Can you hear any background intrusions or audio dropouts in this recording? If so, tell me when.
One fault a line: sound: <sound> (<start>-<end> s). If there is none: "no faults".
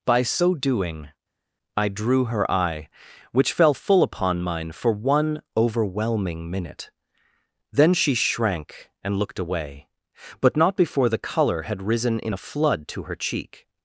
no faults